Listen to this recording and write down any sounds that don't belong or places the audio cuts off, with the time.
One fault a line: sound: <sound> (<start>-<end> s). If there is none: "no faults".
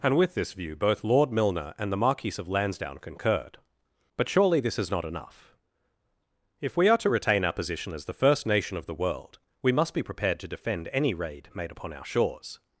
no faults